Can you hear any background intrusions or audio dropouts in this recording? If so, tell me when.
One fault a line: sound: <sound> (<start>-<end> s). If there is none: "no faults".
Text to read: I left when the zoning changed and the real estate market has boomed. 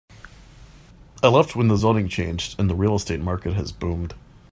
no faults